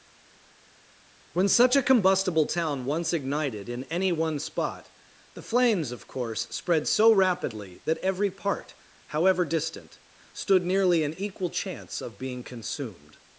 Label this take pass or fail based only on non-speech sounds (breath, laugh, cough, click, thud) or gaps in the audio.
pass